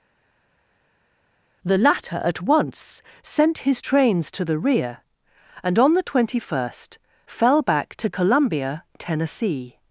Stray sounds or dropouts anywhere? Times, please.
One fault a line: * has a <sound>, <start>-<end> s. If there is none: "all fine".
all fine